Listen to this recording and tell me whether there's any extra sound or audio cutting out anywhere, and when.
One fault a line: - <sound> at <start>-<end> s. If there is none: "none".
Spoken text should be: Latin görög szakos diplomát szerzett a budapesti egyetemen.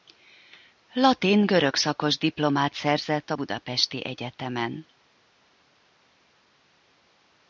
none